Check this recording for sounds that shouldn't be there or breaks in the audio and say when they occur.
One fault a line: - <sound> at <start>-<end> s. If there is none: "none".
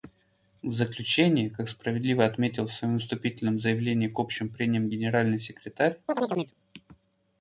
- chirp at 6.1-6.5 s